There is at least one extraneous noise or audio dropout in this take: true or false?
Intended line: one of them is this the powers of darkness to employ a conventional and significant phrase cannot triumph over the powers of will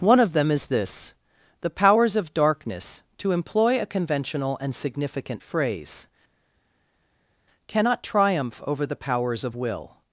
false